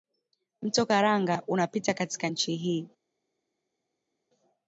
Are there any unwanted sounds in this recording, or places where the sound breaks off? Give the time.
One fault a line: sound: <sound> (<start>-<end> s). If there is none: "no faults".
no faults